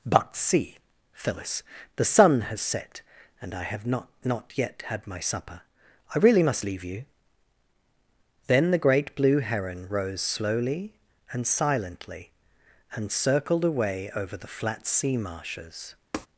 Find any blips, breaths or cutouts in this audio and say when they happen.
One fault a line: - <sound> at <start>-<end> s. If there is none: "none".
- tap at 16.1-16.3 s